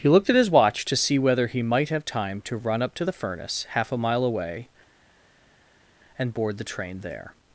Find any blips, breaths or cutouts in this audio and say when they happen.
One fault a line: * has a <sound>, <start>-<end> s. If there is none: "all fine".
all fine